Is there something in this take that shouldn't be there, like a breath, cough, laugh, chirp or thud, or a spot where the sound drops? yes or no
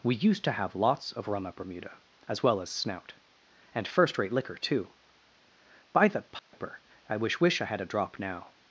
yes